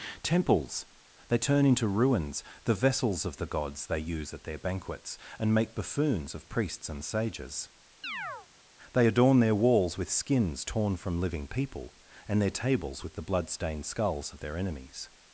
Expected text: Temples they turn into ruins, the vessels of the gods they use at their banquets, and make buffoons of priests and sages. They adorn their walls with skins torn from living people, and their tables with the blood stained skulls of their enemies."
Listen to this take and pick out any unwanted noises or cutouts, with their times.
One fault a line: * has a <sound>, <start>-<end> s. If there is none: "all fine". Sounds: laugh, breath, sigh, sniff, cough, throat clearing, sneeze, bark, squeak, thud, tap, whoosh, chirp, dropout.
* has a chirp, 8.0-8.5 s